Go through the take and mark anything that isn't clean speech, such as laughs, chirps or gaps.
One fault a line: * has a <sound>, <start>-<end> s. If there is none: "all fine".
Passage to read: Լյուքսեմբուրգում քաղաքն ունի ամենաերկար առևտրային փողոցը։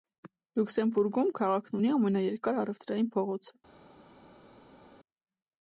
all fine